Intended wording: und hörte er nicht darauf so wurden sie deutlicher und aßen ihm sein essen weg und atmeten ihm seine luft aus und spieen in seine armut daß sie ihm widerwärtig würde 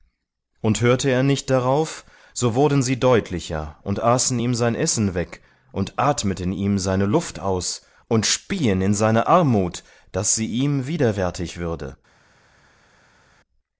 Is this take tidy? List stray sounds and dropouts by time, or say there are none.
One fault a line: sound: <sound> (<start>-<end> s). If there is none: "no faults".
no faults